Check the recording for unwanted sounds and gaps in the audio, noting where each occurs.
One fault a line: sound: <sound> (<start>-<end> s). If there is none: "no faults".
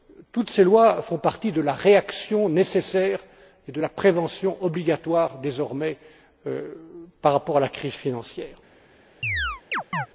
sound: chirp (9.2-10.1 s)